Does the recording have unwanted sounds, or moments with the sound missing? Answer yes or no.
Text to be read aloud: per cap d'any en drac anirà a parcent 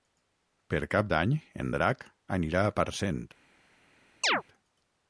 yes